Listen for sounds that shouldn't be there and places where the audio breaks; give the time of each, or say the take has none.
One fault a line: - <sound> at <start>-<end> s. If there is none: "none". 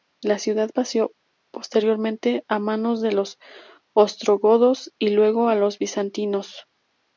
none